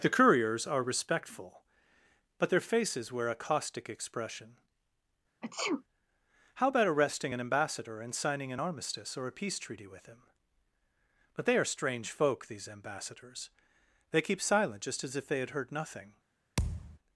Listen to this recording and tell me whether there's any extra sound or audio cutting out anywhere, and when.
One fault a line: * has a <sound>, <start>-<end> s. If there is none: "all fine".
* has a sneeze, 5.4-5.8 s
* has a thud, 16.6-17.0 s